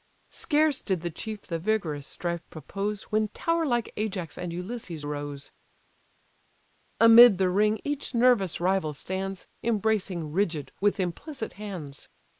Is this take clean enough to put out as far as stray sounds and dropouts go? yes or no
yes